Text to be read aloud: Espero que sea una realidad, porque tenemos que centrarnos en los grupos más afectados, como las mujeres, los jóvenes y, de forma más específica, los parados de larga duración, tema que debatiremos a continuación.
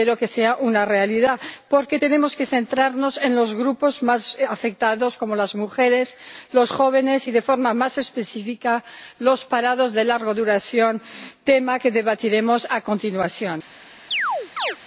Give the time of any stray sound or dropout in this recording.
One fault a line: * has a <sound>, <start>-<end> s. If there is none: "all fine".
* has a chirp, 14.1-14.8 s